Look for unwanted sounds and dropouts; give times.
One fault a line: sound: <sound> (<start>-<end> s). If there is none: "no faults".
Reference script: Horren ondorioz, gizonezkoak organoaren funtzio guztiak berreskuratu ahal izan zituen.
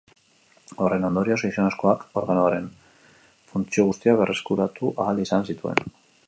no faults